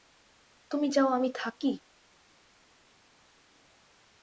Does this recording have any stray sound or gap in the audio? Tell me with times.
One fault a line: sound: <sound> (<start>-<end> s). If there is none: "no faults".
no faults